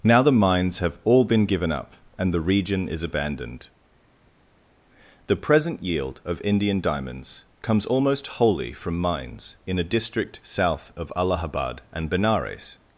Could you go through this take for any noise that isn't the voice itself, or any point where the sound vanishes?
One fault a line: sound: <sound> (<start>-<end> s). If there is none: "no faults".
no faults